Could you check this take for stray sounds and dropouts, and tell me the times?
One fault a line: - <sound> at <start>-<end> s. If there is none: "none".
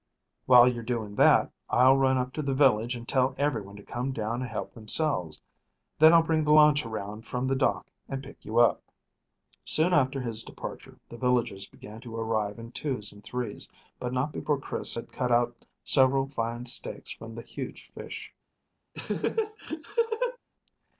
- laugh at 18.9-20.4 s